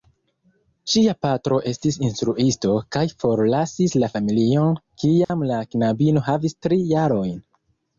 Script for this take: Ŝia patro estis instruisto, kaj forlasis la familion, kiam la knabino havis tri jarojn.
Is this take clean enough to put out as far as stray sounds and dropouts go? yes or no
no